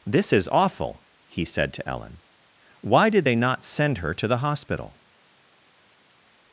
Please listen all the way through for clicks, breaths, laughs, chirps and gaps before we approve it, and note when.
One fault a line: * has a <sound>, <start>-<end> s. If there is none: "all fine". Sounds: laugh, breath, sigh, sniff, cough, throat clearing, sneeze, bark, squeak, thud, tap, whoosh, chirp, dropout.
all fine